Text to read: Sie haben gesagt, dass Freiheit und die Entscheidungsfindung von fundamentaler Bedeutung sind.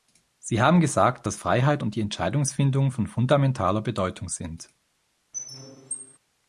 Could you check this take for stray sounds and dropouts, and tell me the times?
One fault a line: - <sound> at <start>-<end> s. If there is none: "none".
- squeak at 5.3-6.2 s